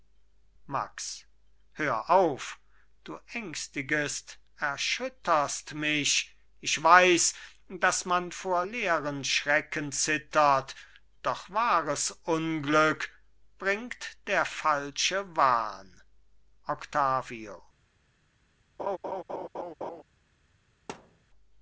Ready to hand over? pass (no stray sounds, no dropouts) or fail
fail